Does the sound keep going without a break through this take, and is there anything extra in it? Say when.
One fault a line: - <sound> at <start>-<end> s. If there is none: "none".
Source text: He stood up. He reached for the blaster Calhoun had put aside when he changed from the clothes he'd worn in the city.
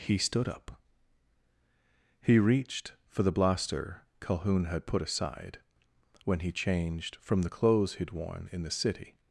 none